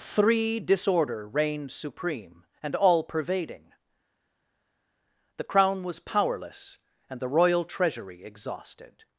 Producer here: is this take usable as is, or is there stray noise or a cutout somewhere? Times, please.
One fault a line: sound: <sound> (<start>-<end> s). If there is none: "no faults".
no faults